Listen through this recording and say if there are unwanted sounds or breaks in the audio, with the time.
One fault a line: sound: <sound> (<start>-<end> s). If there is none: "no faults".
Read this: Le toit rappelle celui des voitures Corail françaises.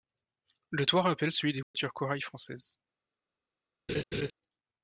sound: dropout (1.6-1.7 s)
sound: laugh (3.9-4.3 s)